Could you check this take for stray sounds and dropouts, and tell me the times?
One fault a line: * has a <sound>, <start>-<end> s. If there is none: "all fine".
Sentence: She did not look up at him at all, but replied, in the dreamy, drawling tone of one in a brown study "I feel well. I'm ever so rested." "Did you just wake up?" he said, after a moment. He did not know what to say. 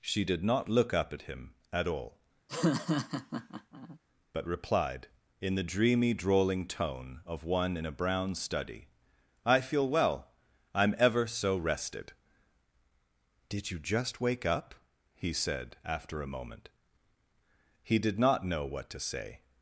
* has a laugh, 2.5-4.0 s